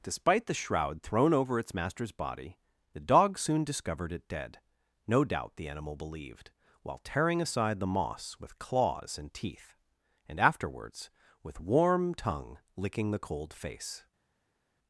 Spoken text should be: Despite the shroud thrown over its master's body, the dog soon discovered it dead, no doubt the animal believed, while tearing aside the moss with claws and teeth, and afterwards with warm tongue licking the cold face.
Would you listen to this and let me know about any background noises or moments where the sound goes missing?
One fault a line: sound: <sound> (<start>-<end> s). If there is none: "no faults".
no faults